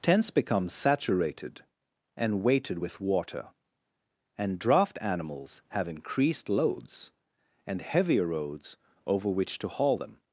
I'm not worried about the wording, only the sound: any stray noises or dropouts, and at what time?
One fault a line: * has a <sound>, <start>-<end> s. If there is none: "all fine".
all fine